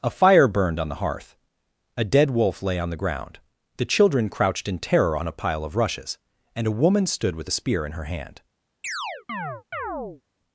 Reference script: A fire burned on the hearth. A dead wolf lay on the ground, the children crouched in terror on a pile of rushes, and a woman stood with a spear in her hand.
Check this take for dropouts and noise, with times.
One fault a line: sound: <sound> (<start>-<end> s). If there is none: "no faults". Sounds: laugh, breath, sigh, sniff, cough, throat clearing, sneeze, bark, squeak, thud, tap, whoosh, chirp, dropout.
sound: chirp (8.8-10.2 s)